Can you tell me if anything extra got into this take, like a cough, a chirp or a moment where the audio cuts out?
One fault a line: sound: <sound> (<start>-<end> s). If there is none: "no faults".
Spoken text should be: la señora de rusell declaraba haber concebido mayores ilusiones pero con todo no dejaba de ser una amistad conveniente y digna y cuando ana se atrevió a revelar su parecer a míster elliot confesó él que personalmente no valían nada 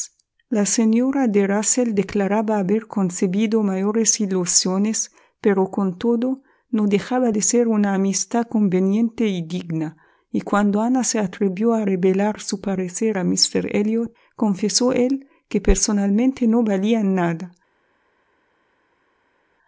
no faults